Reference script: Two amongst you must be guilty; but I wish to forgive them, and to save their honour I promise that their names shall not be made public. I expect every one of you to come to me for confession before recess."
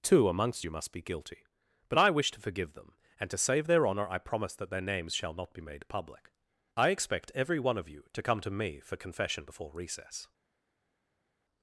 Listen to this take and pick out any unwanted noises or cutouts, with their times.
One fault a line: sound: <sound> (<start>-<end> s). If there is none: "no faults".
no faults